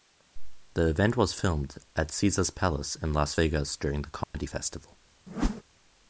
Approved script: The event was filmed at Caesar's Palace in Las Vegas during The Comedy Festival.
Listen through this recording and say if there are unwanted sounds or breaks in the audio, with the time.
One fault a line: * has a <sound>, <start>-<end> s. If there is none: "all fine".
* has a dropout, 4.2-4.3 s
* has a whoosh, 5.3-5.6 s